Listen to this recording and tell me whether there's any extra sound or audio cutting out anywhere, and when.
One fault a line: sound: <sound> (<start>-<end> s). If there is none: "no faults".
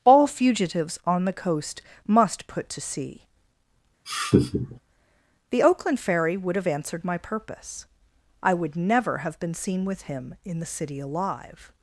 sound: laugh (4.0-4.8 s)